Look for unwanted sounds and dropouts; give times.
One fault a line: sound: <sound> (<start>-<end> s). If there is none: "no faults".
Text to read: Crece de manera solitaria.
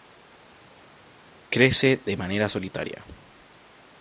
no faults